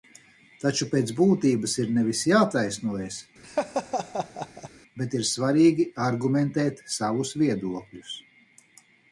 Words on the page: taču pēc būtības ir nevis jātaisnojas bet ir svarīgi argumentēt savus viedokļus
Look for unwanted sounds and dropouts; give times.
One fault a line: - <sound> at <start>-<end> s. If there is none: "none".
- laugh at 3.4-4.7 s